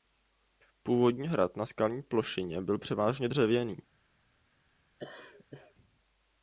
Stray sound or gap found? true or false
true